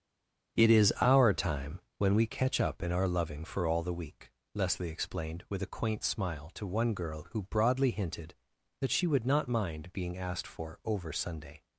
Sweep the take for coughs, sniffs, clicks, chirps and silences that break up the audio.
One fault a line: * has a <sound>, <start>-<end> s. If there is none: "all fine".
all fine